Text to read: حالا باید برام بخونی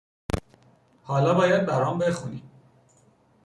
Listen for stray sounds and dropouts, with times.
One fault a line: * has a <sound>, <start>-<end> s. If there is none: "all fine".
all fine